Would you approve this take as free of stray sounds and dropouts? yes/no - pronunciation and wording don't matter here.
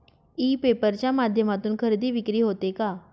yes